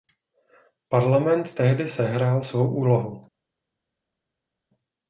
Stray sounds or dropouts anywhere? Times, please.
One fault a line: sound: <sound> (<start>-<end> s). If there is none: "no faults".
no faults